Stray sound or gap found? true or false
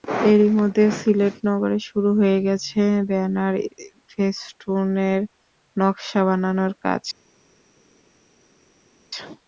false